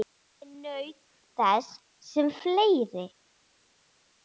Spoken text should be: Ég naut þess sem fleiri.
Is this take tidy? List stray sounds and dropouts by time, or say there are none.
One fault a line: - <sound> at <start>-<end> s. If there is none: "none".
none